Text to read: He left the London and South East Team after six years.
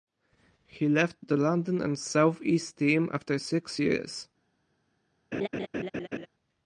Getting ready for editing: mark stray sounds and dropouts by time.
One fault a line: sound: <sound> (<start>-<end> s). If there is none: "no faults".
sound: laugh (5.3-6.3 s)